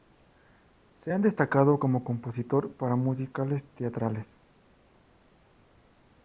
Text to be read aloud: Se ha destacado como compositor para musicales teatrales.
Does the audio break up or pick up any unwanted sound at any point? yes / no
no